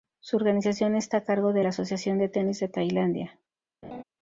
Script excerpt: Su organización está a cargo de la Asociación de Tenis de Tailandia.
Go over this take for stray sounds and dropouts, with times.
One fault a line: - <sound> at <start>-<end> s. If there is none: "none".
- laugh at 3.8-4.0 s